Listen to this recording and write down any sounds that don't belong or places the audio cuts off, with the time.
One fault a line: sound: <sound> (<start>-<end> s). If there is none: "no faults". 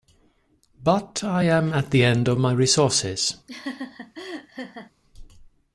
sound: laugh (3.5-4.9 s)